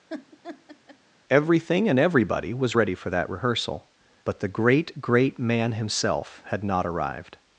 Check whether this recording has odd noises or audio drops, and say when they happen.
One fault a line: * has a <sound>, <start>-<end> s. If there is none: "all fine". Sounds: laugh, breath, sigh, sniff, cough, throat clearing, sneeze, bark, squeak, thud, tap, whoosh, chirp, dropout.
* has a laugh, 0.1-1.0 s